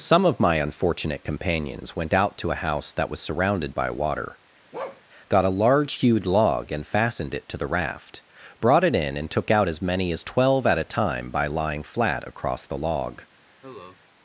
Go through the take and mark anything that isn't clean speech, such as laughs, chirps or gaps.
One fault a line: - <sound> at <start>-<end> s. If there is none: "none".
- bark at 4.7-5.0 s
- cough at 13.6-14.0 s